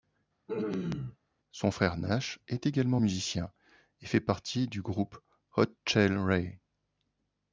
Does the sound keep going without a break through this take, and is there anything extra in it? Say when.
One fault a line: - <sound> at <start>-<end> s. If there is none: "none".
- throat clearing at 0.5-1.2 s